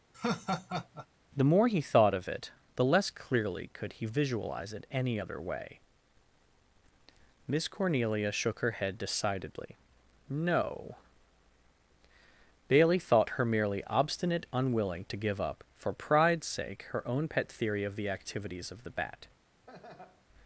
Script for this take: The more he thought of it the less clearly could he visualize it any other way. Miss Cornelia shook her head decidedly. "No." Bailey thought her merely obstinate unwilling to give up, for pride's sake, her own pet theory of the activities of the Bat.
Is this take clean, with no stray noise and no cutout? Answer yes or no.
no